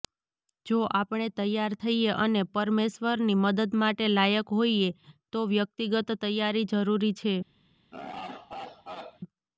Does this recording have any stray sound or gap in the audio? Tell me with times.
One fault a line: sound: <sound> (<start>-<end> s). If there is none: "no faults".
sound: laugh (7.9-9.2 s)